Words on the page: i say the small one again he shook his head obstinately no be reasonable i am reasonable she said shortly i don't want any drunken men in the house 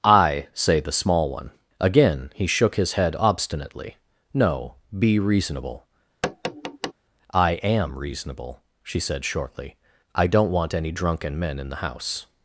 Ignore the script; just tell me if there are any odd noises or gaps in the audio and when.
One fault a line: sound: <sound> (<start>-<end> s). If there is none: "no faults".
sound: tap (6.2-6.9 s)